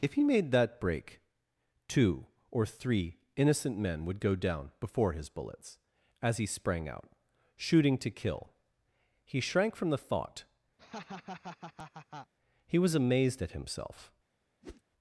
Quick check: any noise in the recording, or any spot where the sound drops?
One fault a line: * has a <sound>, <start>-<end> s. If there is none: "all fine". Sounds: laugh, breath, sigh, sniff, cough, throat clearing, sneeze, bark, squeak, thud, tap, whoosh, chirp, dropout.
* has a laugh, 10.8-12.3 s
* has a whoosh, 14.6-14.8 s